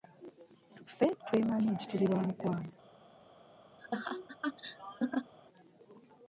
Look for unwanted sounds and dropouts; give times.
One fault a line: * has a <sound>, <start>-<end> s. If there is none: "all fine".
* has a laugh, 3.8-5.3 s